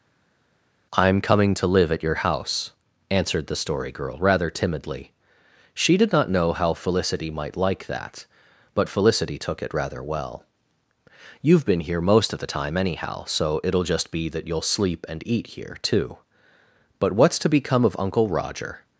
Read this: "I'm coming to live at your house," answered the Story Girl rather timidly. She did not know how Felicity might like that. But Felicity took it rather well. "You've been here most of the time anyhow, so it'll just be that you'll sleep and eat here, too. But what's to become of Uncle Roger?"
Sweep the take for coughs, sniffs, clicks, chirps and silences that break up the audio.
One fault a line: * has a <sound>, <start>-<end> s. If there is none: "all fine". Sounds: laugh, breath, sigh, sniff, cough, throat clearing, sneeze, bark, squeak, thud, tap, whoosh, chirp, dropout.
all fine